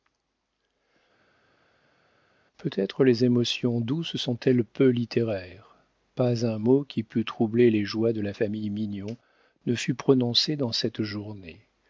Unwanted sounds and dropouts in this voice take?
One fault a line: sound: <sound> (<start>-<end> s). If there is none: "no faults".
no faults